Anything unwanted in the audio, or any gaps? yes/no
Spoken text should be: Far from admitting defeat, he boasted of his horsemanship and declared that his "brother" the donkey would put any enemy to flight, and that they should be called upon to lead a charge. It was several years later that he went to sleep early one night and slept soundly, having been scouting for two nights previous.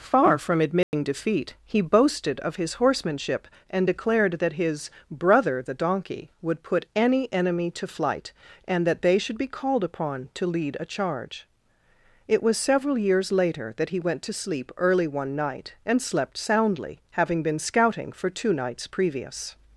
yes